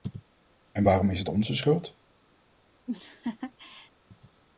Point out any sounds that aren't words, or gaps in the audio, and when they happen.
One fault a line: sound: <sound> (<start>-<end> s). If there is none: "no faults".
sound: laugh (2.9-3.9 s)